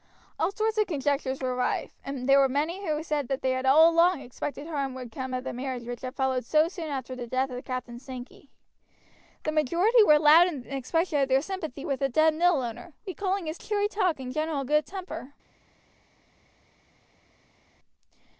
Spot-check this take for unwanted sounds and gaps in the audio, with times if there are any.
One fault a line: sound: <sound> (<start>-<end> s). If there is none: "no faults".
no faults